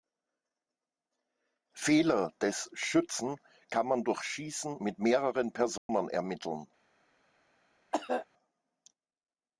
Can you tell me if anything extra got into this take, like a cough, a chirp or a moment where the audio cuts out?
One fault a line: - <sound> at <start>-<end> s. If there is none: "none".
- dropout at 5.8-5.9 s
- cough at 7.9-8.3 s